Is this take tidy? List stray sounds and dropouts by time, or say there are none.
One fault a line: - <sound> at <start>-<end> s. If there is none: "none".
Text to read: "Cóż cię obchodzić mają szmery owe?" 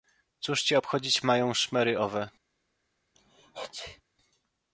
- sneeze at 3.2-4.0 s